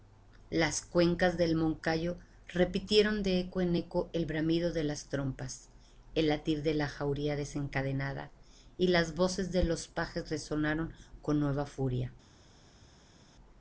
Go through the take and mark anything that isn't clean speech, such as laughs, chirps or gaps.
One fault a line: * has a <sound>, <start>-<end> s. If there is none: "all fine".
all fine